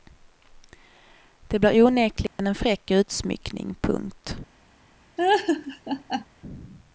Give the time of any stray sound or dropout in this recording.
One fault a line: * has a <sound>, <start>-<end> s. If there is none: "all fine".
* has a dropout, 2.3-2.4 s
* has a laugh, 5.2-6.3 s